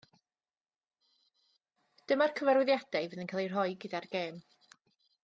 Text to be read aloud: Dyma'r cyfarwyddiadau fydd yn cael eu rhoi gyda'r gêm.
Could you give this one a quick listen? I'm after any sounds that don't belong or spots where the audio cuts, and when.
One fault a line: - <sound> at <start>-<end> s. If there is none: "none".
none